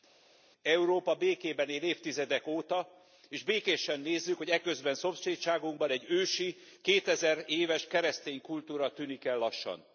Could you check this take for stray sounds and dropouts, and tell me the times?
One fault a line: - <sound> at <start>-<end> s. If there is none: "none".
none